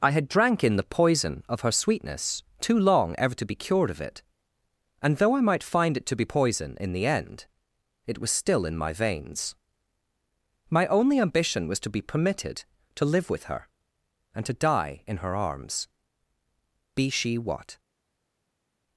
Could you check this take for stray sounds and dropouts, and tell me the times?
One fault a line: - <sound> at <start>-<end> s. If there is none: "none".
none